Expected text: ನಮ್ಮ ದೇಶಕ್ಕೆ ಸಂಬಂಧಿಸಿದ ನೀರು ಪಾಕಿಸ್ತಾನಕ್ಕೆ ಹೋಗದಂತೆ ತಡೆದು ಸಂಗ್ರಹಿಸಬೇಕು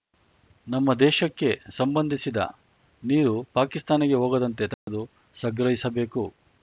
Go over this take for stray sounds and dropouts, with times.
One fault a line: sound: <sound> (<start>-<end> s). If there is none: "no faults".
sound: dropout (4.7-4.9 s)